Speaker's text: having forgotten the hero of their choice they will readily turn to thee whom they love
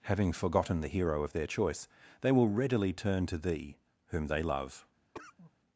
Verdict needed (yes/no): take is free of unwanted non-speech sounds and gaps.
no